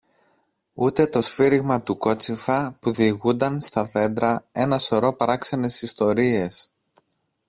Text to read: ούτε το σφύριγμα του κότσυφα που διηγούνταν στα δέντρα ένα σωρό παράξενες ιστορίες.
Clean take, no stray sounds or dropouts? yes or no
yes